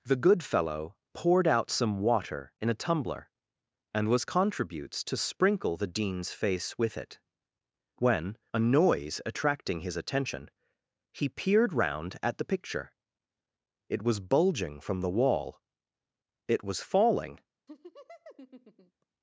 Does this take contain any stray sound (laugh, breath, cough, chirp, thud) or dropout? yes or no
yes